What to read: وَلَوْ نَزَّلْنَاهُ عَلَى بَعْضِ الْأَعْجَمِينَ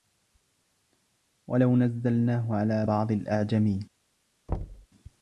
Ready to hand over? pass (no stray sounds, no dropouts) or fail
fail